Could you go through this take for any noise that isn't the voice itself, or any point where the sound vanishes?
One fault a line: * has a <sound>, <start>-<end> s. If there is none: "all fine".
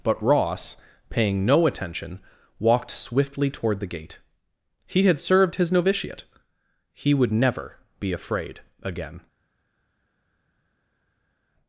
all fine